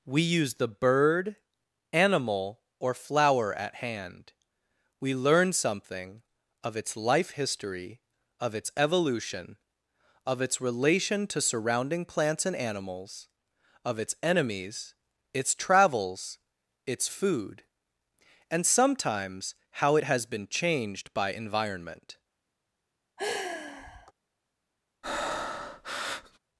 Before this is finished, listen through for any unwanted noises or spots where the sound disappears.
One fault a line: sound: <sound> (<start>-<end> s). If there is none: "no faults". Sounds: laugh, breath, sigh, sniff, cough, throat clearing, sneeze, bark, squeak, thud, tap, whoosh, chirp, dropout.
sound: sigh (23.2-24.1 s)
sound: breath (25.0-26.4 s)